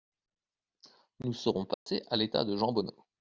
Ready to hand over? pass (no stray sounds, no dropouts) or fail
fail